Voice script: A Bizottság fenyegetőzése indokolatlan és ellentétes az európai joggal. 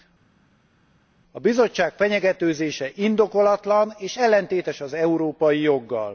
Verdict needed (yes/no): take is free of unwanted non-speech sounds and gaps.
yes